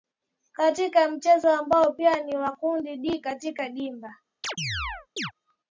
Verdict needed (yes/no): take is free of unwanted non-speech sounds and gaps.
no